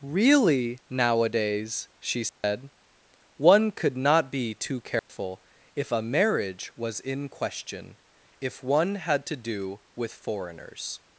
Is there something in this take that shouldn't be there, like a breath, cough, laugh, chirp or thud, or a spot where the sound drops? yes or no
yes